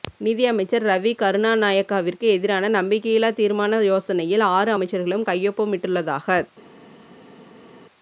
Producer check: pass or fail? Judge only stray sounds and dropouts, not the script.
pass